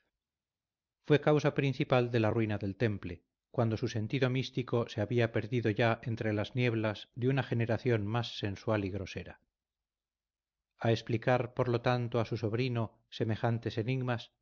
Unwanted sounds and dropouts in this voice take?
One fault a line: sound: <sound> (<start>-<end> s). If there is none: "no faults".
no faults